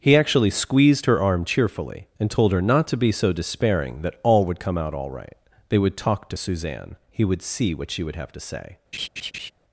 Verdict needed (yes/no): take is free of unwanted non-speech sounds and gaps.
no